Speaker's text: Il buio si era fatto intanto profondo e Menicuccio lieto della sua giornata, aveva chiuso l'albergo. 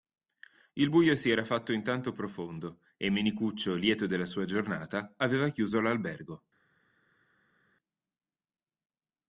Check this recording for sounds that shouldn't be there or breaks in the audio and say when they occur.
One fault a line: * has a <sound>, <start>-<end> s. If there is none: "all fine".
all fine